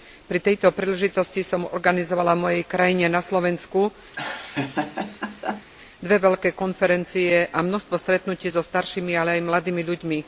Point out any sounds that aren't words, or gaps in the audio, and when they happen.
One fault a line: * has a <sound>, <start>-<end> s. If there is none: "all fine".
* has a laugh, 4.1-5.7 s